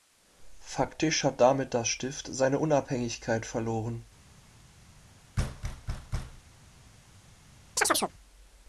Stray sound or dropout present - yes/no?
yes